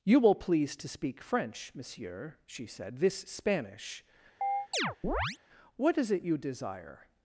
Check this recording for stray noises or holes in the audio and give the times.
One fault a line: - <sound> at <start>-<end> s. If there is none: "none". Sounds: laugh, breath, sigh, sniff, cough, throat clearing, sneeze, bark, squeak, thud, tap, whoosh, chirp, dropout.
- chirp at 4.4-5.4 s